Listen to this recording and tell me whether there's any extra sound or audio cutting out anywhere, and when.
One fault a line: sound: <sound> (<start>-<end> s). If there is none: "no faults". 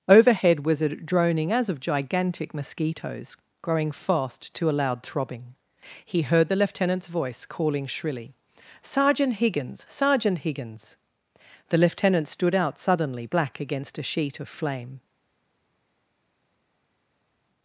no faults